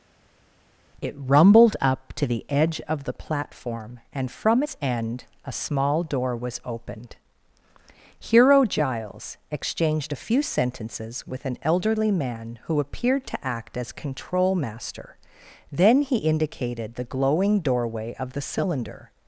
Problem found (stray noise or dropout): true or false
false